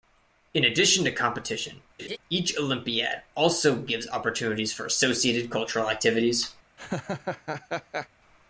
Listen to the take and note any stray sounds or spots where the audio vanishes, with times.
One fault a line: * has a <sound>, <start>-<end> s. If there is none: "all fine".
* has a laugh, 2.0-2.2 s
* has a laugh, 6.8-8.1 s